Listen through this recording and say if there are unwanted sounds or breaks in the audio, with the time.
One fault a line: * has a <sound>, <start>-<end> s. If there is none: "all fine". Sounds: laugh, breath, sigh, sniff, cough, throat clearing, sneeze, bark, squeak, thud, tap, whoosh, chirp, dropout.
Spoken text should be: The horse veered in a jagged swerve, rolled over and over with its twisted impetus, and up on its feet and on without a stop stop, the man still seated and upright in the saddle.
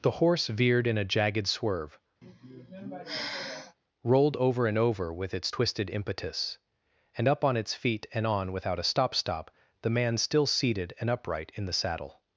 * has a sigh, 2.2-3.8 s